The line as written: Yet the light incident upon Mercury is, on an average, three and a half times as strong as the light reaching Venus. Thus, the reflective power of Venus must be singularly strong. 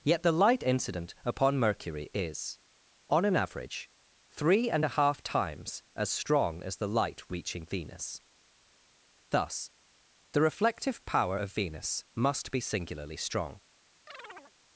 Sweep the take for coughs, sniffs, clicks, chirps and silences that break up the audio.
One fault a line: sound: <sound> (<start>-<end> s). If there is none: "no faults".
sound: chirp (14.1-14.5 s)